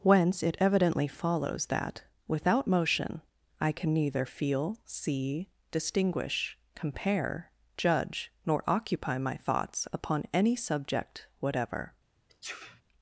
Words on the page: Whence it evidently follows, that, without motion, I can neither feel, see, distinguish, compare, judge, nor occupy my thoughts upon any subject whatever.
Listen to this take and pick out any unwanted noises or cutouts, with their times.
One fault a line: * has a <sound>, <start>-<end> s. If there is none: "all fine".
* has a sneeze, 12.3-12.8 s